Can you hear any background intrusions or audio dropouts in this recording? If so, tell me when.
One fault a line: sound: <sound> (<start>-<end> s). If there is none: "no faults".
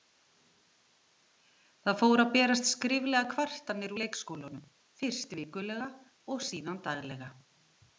no faults